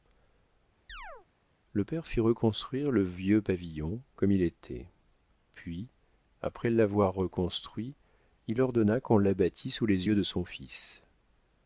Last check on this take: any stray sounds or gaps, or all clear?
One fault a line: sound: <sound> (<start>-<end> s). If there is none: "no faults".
sound: chirp (0.9-1.3 s)